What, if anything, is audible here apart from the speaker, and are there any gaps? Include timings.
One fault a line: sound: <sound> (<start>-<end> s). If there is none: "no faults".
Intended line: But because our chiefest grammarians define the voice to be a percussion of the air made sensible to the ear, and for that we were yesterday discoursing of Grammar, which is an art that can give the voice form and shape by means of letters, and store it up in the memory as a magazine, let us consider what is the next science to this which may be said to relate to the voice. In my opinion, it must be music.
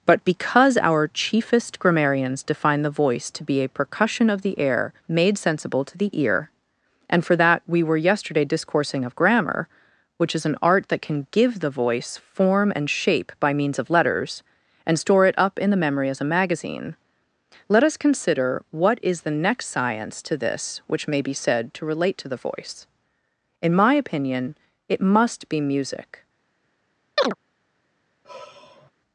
sound: chirp (27.2-27.3 s)
sound: sigh (28.2-28.9 s)